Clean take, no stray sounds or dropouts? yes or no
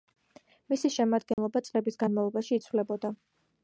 no